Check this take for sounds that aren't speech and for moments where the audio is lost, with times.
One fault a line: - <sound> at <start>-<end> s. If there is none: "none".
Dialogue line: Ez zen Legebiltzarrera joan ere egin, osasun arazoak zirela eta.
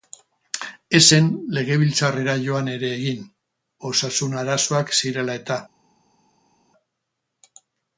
none